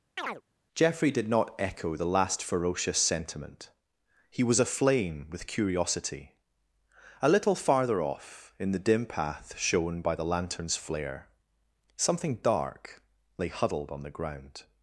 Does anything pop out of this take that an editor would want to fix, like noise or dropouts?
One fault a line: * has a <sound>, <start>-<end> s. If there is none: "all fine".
* has a chirp, 0.2-0.4 s